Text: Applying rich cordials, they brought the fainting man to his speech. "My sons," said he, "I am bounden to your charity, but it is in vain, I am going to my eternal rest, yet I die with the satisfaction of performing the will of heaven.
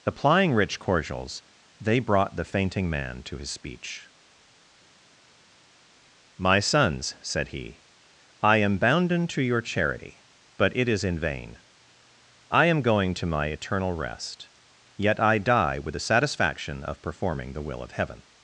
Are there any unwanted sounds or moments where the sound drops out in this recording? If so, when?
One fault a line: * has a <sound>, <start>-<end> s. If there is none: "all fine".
all fine